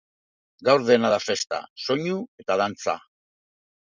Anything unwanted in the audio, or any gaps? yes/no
no